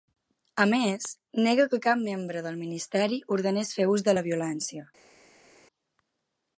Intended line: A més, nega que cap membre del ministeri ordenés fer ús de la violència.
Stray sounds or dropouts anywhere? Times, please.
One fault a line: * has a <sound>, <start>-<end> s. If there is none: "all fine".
all fine